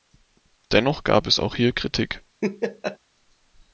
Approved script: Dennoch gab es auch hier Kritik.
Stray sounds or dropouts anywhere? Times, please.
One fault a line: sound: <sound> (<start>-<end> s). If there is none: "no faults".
sound: laugh (2.4-3.0 s)